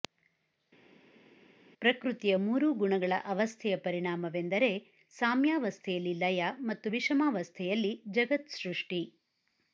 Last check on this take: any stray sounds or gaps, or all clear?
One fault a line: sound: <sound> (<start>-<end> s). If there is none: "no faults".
no faults